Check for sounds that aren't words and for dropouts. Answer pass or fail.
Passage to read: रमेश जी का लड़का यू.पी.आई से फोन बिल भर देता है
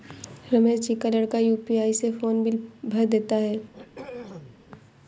fail